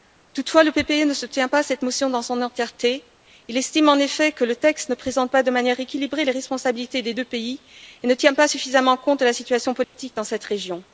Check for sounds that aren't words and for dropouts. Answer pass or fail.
fail